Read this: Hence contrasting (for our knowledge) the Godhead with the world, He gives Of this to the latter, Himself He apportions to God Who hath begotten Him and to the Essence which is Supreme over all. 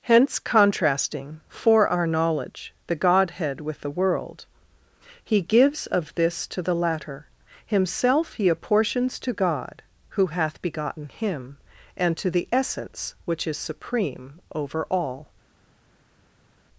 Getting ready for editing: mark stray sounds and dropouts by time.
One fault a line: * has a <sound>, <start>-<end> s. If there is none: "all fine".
all fine